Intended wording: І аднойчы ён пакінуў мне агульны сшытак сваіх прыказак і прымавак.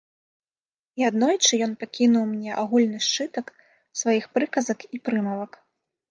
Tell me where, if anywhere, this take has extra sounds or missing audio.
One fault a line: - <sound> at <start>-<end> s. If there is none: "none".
none